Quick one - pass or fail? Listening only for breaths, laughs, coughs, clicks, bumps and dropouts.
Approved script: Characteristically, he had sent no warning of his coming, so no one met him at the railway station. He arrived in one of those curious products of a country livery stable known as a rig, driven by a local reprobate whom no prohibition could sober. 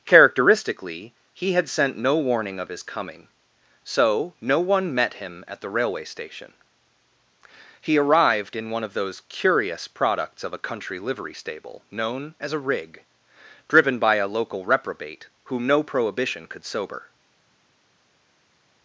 pass